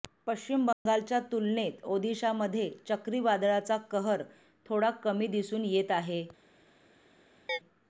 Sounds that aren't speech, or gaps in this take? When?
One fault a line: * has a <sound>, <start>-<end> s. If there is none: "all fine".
* has a dropout, 0.7-0.9 s
* has a chirp, 7.5-7.6 s